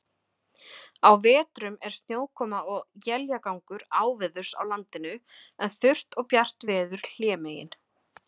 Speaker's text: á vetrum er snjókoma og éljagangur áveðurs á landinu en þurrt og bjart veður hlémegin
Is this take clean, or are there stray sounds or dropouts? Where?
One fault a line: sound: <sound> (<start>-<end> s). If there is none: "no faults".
no faults